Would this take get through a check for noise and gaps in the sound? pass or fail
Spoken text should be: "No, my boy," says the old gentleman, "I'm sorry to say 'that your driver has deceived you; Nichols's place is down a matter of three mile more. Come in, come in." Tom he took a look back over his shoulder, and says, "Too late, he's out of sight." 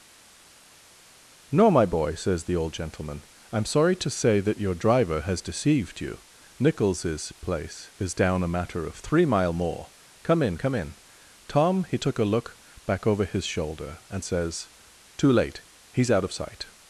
pass